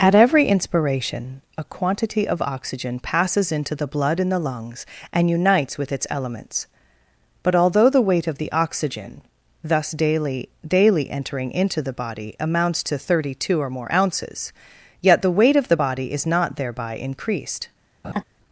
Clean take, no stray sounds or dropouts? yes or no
no